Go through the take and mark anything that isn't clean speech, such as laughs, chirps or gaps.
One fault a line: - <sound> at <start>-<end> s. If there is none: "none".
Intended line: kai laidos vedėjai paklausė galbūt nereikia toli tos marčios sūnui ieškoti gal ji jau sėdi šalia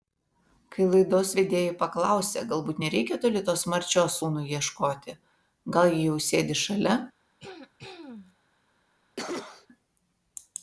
- throat clearing at 7.4-8.4 s
- cough at 9.2-9.7 s